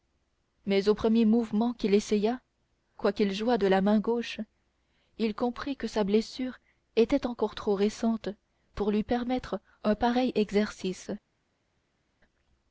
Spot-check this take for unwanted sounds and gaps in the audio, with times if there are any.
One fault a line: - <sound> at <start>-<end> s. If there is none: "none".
none